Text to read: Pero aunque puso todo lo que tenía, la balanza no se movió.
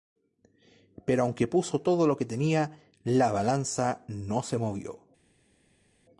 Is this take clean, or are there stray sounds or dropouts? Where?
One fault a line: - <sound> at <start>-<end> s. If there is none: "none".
none